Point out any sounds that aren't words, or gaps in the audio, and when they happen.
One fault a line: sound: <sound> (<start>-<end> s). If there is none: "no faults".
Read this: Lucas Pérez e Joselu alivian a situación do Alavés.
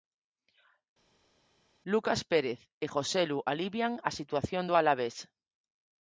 no faults